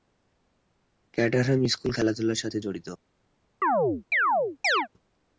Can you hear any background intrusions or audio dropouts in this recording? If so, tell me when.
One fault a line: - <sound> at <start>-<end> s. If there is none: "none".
- chirp at 3.6-4.9 s